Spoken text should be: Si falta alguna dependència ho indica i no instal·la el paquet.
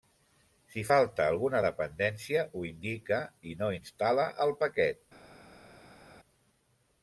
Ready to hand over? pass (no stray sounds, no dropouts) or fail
pass